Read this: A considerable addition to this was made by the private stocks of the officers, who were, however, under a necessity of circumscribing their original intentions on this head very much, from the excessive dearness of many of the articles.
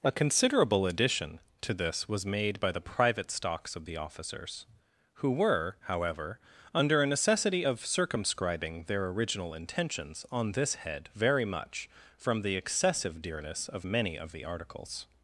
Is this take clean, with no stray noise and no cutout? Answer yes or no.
yes